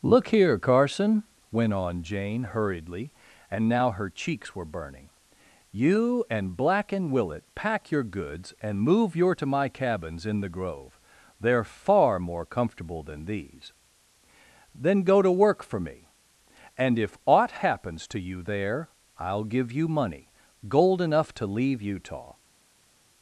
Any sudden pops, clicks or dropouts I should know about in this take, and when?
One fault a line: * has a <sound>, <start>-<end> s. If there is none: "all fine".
all fine